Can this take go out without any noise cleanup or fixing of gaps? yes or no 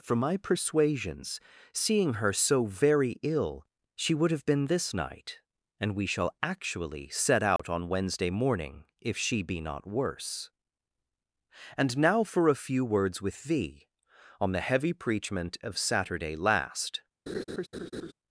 no